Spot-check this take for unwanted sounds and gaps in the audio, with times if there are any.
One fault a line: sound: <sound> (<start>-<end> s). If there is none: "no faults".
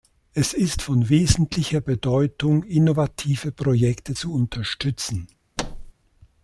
sound: thud (5.6-5.9 s)